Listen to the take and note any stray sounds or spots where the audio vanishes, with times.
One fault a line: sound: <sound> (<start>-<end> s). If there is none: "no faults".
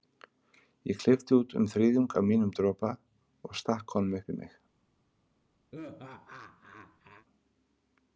sound: laugh (5.7-7.3 s)